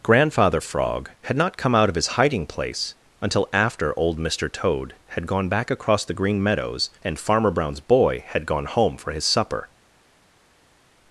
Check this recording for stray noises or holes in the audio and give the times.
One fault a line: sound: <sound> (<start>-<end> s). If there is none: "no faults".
no faults